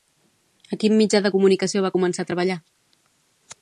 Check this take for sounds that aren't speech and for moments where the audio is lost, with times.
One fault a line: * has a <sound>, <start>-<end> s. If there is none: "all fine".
all fine